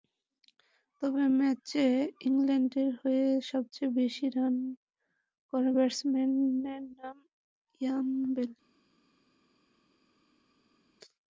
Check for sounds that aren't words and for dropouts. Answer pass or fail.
pass